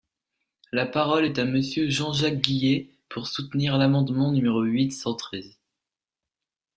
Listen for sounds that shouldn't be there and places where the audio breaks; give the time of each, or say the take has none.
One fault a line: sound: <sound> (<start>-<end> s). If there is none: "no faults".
no faults